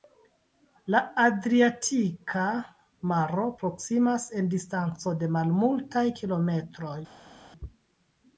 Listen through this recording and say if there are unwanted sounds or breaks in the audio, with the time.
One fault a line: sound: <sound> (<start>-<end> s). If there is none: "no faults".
no faults